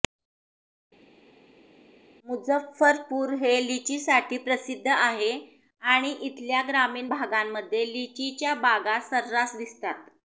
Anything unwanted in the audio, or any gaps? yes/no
no